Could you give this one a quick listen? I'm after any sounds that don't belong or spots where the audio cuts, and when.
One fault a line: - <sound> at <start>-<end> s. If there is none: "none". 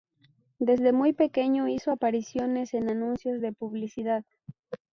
none